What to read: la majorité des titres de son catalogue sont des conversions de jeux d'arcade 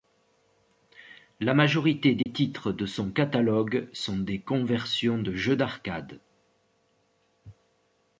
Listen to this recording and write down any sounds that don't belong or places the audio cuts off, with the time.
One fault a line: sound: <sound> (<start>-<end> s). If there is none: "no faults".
sound: dropout (2.2-2.3 s)